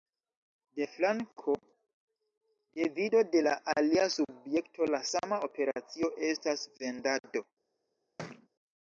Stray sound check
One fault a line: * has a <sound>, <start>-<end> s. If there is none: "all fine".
* has a thud, 8.2-8.5 s